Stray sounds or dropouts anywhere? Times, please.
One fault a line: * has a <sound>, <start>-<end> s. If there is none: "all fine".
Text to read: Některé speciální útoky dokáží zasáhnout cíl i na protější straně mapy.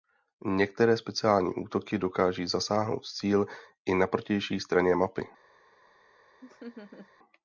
* has a laugh, 6.4-7.1 s